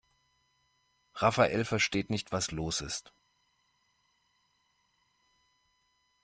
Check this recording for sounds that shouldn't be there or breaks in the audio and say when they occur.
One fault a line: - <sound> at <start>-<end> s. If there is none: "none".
none